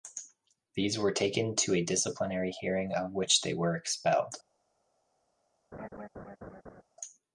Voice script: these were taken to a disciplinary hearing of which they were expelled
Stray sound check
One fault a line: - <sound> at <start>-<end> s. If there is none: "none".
- laugh at 5.7-6.8 s